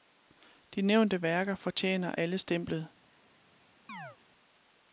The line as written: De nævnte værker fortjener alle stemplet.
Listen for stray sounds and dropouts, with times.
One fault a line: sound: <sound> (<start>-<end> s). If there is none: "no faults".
sound: chirp (3.9-4.2 s)